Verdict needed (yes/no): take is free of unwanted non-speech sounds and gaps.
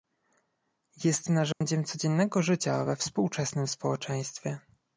no